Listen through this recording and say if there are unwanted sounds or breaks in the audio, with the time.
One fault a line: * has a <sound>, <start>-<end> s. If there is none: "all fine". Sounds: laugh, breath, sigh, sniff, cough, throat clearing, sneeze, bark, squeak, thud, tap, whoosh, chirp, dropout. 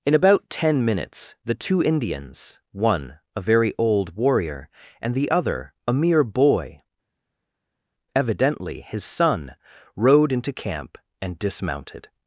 all fine